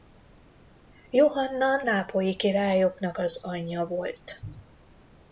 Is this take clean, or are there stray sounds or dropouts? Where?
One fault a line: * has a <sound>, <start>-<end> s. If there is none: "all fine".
all fine